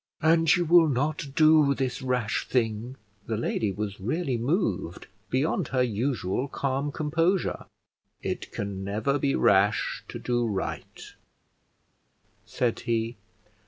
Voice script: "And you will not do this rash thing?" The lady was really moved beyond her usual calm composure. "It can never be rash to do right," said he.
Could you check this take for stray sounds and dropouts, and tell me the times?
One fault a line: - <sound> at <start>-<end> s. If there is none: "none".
none